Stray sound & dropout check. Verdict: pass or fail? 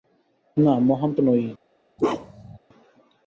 fail